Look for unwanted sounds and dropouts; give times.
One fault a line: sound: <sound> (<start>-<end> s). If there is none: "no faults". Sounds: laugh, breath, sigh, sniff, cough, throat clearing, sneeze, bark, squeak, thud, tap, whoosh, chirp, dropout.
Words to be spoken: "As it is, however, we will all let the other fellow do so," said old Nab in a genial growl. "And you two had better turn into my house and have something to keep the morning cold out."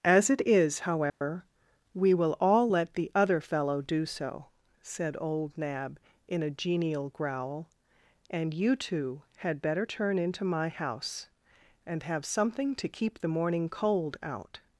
sound: dropout (1.1-1.2 s)